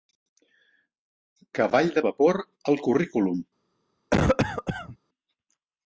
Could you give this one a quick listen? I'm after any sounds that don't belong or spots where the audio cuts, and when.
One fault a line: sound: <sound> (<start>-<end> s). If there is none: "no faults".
sound: cough (4.1-5.0 s)